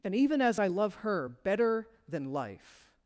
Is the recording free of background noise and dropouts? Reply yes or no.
yes